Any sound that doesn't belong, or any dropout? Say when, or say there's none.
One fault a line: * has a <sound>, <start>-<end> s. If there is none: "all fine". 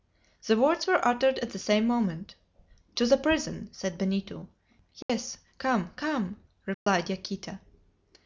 * has a dropout, 5.0-5.1 s
* has a dropout, 6.7-6.9 s